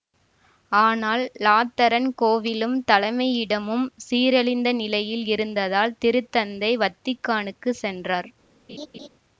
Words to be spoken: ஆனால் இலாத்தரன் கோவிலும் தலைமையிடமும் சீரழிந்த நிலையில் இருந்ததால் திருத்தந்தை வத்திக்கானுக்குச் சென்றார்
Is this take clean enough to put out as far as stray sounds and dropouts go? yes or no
no